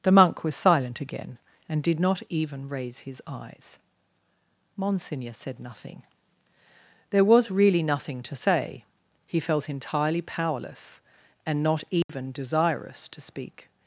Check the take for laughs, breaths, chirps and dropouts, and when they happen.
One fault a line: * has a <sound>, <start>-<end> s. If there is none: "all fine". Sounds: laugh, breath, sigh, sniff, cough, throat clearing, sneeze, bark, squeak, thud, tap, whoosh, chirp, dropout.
* has a dropout, 12.0-12.1 s